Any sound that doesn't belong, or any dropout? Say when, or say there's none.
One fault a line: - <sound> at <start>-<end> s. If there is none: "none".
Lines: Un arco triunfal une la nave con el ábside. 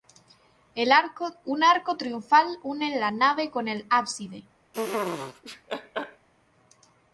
- laugh at 4.7-6.3 s